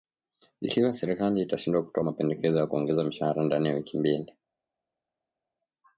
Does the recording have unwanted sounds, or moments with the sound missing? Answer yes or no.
no